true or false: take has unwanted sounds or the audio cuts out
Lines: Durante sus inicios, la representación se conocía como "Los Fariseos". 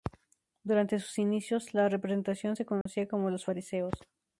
true